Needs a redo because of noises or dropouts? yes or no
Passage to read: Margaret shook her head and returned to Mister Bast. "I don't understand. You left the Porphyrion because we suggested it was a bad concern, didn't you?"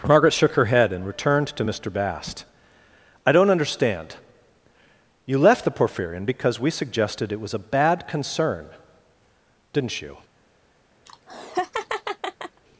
yes